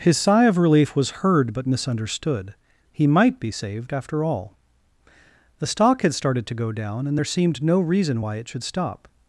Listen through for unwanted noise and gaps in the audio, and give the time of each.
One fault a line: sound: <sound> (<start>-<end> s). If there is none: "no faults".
no faults